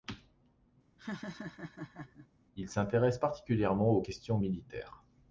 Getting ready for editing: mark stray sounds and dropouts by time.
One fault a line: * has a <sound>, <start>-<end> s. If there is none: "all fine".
* has a laugh, 1.0-2.3 s